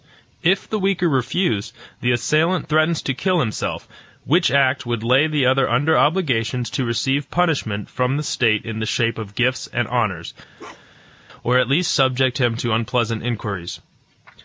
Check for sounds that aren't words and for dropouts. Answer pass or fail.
fail